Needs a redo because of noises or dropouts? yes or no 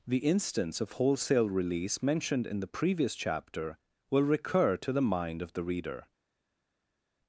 no